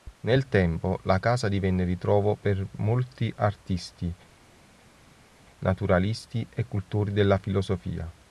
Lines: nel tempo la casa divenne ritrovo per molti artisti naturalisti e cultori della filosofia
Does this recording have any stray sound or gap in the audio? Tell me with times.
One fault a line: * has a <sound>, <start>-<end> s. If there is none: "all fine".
all fine